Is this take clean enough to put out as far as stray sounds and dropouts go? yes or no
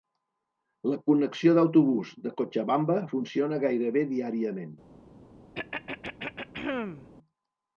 no